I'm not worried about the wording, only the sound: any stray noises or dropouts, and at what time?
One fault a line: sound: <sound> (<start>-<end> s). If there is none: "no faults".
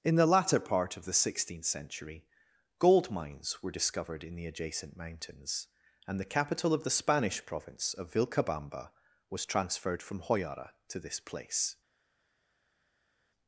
no faults